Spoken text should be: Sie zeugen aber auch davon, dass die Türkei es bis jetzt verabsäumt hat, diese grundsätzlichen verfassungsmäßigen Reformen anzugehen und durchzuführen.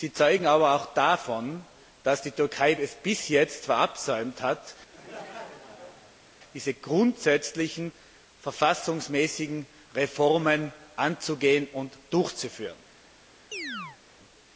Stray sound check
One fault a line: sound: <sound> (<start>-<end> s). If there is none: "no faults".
sound: laugh (4.9-6.3 s)
sound: chirp (13.5-14.0 s)